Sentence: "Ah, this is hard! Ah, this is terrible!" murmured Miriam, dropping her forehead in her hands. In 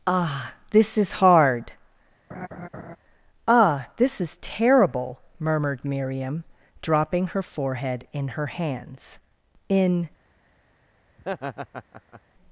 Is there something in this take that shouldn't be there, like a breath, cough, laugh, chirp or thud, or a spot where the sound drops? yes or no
yes